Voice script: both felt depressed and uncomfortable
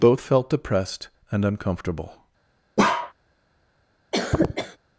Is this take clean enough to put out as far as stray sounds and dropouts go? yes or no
no